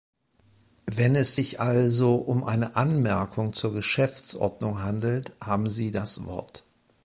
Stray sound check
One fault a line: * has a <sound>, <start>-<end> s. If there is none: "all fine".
all fine